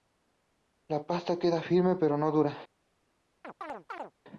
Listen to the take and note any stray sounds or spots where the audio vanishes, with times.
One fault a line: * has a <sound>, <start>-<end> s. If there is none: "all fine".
* has a chirp, 3.4-4.1 s